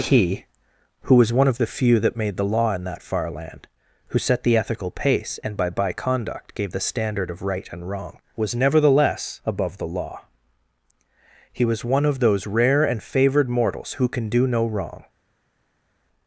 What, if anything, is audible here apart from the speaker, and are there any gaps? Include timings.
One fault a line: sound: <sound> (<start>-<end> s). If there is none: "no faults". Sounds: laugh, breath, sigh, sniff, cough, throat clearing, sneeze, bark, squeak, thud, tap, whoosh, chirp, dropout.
no faults